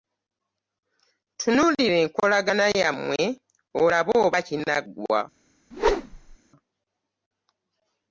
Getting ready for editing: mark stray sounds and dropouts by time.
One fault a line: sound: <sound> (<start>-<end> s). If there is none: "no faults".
sound: whoosh (5.7-6.4 s)